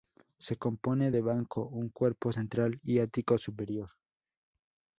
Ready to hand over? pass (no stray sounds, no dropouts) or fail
pass